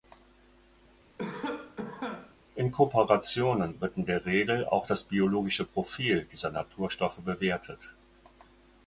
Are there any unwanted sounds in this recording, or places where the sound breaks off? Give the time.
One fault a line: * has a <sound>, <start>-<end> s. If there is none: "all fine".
* has a cough, 1.2-2.4 s